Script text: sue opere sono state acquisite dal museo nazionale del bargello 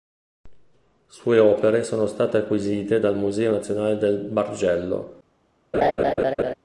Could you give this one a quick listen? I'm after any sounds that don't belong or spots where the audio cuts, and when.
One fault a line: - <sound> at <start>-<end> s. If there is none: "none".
- laugh at 5.7-6.5 s